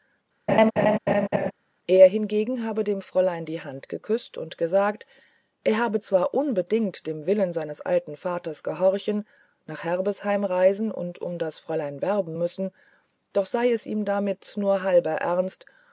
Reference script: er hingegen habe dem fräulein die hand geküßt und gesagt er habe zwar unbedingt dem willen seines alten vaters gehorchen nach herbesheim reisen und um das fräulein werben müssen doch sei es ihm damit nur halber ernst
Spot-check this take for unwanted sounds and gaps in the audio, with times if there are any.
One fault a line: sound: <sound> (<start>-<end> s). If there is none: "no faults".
sound: laugh (0.5-1.5 s)